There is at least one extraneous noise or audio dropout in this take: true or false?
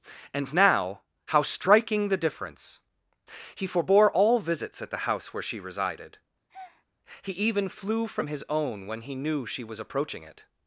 true